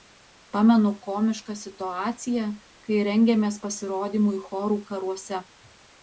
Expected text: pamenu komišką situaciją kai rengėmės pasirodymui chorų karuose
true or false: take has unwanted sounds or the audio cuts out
false